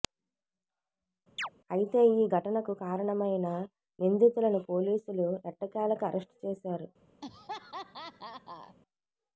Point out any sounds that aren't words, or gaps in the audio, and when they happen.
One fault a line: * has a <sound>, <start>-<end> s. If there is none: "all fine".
* has a chirp, 1.4-1.5 s
* has a laugh, 7.2-8.8 s